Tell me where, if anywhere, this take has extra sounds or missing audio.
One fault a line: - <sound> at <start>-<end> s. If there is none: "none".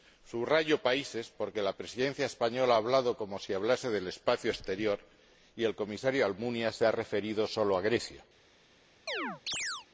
- chirp at 9.1-9.9 s